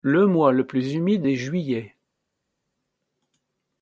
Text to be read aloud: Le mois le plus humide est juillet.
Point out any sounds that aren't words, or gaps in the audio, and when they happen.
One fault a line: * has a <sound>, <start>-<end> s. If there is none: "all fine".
all fine